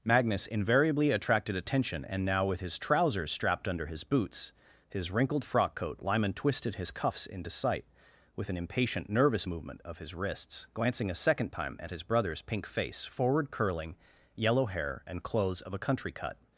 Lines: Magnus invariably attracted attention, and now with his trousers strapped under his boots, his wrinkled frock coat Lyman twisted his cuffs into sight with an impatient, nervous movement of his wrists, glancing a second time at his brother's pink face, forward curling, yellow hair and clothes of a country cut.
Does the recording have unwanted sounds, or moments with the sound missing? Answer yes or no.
no